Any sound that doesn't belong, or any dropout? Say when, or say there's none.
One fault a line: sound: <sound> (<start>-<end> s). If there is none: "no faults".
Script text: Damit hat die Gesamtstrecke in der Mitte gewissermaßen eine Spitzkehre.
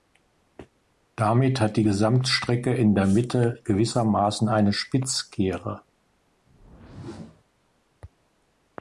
sound: whoosh (6.5-7.4 s)